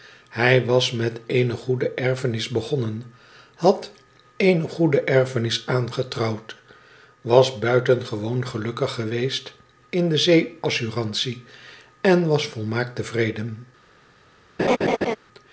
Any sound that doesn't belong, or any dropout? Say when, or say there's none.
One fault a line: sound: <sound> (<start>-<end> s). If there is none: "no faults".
sound: laugh (14.6-15.2 s)